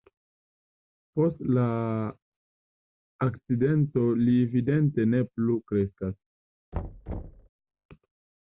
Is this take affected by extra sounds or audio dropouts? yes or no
yes